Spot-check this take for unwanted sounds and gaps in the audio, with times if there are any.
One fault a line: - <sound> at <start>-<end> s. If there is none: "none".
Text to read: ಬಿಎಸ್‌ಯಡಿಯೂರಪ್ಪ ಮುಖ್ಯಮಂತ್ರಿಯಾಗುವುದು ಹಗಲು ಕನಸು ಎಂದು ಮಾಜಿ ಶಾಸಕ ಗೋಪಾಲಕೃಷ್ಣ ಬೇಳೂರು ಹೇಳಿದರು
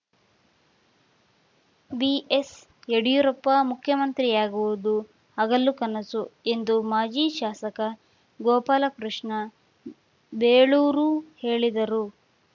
none